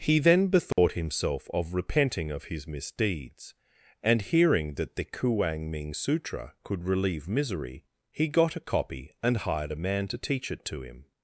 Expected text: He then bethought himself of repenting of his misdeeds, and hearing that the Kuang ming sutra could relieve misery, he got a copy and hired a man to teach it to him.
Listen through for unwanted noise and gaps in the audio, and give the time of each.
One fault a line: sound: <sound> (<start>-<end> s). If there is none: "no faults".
sound: dropout (0.7-0.8 s)